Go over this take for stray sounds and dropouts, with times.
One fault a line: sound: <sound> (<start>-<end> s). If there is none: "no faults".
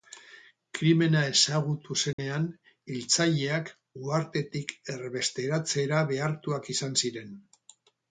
sound: dropout (2.1-2.2 s)